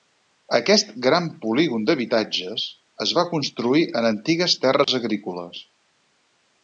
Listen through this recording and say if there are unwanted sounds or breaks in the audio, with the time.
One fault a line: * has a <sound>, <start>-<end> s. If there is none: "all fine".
* has a dropout, 4.8-4.9 s